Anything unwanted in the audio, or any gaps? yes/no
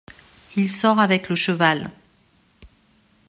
no